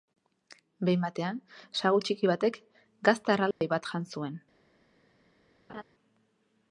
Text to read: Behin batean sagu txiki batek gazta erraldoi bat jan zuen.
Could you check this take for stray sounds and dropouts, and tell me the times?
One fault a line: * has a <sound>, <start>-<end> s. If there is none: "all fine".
* has a dropout, 3.5-3.6 s
* has a laugh, 5.7-5.8 s